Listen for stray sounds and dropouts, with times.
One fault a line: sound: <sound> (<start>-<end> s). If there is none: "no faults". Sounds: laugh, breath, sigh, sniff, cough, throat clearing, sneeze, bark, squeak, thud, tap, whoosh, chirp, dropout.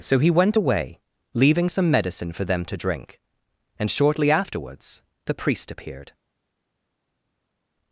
no faults